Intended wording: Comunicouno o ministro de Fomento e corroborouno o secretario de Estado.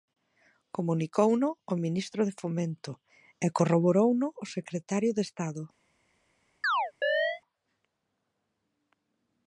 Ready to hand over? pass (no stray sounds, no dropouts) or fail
fail